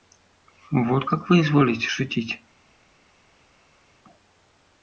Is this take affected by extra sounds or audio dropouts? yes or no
no